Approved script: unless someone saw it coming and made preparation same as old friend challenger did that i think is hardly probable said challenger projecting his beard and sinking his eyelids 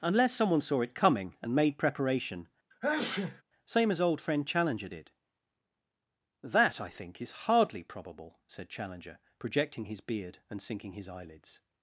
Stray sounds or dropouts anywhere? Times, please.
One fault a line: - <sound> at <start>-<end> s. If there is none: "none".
- sneeze at 2.7-3.4 s